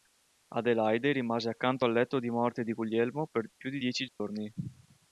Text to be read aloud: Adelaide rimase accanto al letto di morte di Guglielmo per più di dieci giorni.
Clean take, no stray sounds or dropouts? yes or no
no